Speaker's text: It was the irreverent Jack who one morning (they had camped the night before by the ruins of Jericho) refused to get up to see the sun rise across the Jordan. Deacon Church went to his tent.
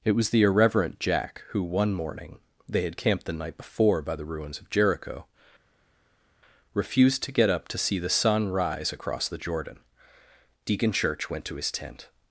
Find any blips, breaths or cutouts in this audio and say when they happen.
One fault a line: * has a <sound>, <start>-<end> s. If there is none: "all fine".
all fine